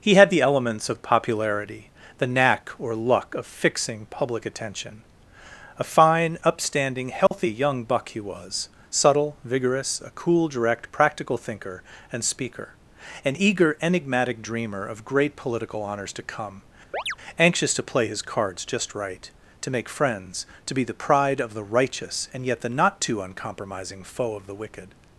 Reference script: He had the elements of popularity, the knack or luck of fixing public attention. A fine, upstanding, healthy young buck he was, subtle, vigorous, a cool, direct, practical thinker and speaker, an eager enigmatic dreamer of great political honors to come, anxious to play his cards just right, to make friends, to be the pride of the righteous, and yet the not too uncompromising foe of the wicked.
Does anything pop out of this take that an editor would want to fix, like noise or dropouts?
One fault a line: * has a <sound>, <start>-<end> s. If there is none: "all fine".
* has a dropout, 7.3-7.3 s
* has a chirp, 16.9-17.2 s